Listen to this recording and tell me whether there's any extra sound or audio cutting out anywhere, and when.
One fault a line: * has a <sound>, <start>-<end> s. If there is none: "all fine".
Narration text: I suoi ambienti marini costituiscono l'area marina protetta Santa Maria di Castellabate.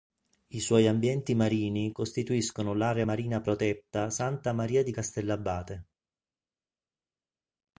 all fine